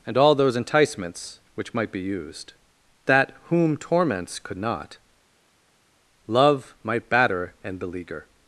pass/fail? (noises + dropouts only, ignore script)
pass